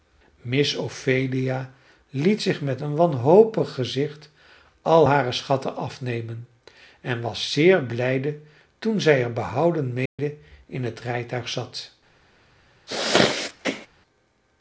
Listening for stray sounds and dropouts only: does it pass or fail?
fail